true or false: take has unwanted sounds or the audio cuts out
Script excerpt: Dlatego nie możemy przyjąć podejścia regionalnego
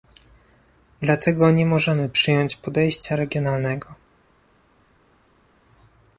false